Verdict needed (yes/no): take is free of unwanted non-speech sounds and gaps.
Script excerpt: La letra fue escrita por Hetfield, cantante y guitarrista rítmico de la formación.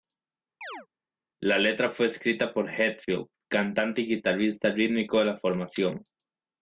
no